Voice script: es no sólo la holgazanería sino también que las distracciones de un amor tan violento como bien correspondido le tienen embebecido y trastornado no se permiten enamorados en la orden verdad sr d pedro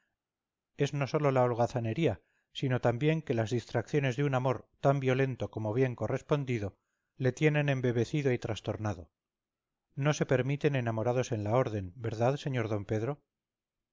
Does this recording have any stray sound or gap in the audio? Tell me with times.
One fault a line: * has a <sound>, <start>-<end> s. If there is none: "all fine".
all fine